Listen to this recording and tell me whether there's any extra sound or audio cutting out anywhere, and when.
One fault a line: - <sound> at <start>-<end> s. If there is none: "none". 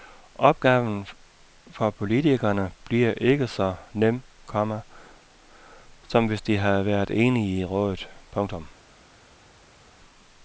none